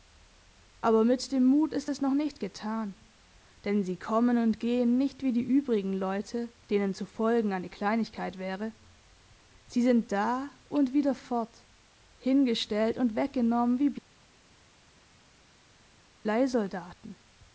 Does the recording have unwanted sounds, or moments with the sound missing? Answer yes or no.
no